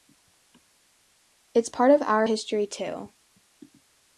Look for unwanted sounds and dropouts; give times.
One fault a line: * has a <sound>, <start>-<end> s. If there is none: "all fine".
all fine